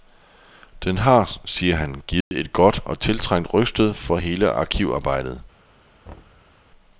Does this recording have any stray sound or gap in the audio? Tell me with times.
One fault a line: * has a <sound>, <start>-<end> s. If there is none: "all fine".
* has a dropout, 2.2-2.3 s
* has a thud, 6.1-6.5 s